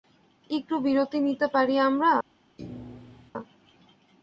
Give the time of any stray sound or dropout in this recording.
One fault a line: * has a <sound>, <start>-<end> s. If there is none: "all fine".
* has a thud, 2.6-3.3 s